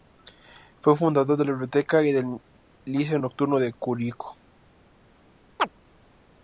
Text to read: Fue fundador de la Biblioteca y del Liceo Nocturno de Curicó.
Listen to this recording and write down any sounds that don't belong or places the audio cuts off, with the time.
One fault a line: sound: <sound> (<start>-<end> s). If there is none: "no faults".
sound: chirp (5.6-5.7 s)